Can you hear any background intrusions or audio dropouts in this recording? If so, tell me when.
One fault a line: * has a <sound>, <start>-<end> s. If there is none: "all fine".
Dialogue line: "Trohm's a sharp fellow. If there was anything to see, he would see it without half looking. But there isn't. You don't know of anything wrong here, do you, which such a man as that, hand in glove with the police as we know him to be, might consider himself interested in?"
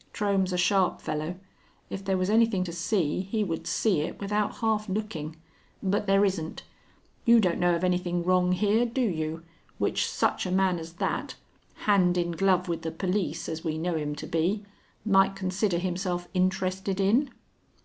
all fine